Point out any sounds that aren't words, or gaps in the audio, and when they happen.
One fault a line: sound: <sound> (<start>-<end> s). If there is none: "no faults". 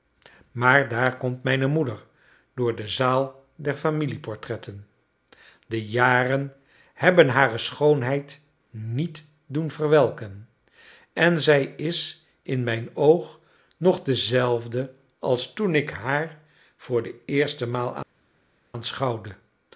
no faults